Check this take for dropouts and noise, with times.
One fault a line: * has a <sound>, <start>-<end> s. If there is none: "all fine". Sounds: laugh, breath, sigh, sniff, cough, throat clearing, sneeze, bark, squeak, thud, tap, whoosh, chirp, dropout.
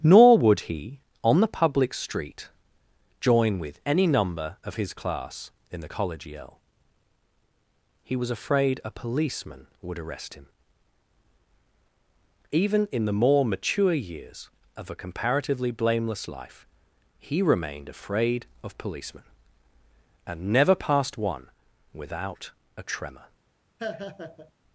* has a laugh, 23.8-24.5 s